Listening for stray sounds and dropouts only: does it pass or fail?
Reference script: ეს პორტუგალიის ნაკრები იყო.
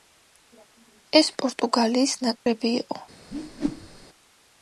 fail